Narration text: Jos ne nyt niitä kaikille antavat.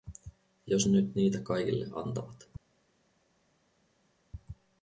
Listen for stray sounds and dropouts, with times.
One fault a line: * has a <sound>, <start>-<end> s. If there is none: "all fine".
all fine